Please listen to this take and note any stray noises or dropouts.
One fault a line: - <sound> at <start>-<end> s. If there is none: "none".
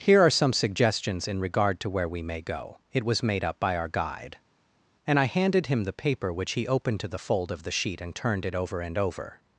none